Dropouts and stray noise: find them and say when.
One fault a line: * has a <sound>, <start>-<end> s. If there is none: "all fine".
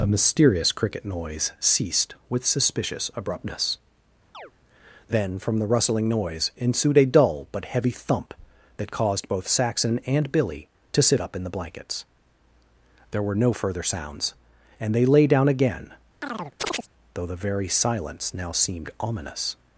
* has a chirp, 4.3-4.5 s
* has a chirp, 16.2-16.9 s